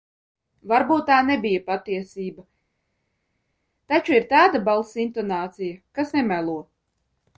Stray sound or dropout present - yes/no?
no